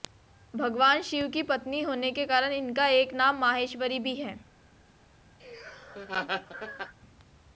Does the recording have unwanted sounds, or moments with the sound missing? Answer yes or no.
yes